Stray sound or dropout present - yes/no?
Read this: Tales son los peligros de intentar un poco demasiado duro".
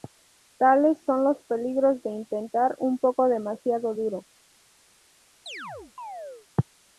yes